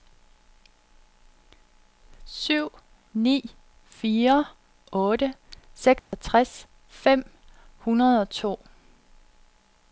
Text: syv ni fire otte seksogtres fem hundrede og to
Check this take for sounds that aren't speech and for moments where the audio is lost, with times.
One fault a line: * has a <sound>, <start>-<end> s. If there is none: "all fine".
* has a dropout, 6.0-6.1 s